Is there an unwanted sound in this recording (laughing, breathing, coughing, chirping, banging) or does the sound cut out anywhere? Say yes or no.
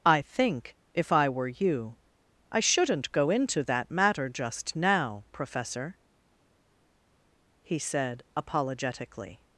no